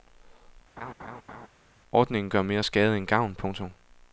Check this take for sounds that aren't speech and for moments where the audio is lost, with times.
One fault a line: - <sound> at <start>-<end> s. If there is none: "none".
- laugh at 0.8-1.5 s